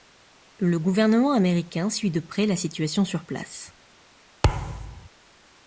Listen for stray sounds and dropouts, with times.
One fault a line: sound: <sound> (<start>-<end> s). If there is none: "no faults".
sound: thud (4.4-5.1 s)